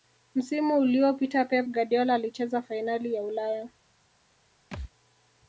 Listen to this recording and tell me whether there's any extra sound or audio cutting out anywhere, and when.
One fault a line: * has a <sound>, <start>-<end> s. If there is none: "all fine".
* has a thud, 4.7-4.9 s